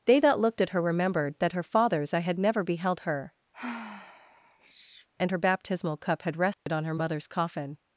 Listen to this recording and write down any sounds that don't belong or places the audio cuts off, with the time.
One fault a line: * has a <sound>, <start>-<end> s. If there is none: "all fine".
* has a sigh, 3.5-5.1 s
* has a dropout, 6.5-6.7 s